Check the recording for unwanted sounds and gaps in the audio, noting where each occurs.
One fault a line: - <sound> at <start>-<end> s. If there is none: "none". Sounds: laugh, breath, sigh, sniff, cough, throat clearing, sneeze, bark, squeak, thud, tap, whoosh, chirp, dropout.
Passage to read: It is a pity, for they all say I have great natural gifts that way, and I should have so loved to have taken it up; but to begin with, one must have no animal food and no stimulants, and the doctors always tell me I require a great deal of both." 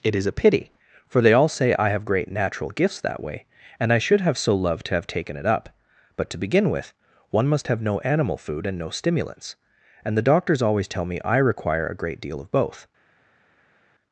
none